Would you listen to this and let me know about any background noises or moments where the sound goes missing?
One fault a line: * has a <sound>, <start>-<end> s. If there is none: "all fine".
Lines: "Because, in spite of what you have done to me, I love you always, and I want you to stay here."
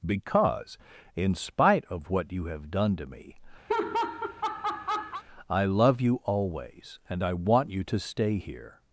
* has a laugh, 3.7-5.2 s